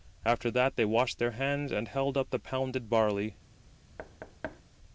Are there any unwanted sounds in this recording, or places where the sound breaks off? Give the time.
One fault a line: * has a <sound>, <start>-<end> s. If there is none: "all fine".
* has a thud, 4.0-4.6 s